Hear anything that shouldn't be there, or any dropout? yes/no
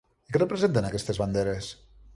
no